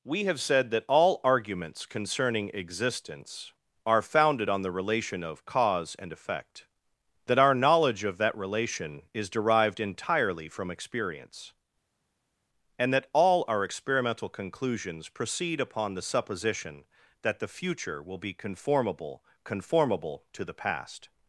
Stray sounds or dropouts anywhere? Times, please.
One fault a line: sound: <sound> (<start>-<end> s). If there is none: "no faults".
no faults